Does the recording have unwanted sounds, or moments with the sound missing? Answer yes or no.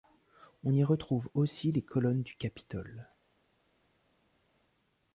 no